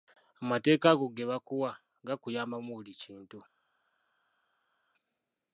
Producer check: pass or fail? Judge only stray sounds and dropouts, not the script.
pass